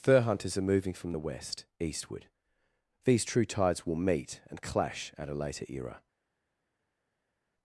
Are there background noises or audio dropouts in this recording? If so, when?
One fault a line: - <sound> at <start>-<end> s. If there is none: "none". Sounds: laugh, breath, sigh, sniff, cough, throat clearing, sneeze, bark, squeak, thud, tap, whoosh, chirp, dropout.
none